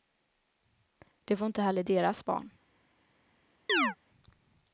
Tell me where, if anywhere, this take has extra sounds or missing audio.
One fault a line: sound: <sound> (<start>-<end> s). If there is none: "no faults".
sound: chirp (3.7-4.0 s)